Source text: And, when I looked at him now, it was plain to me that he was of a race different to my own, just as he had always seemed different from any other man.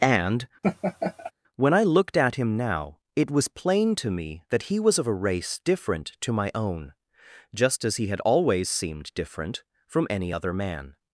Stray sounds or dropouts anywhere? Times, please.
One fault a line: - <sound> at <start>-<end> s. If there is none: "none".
- laugh at 0.6-1.3 s